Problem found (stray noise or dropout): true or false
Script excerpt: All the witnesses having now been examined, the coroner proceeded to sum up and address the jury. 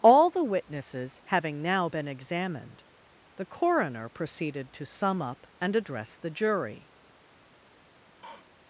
true